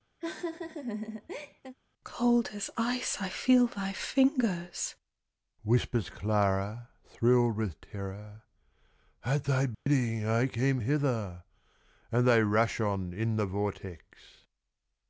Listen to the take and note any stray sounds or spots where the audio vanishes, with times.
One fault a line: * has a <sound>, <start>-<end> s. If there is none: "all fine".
* has a laugh, 0.2-1.7 s
* has a dropout, 9.7-9.9 s